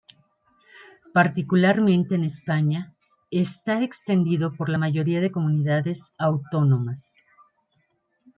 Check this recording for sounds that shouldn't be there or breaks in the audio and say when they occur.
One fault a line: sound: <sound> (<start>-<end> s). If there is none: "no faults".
no faults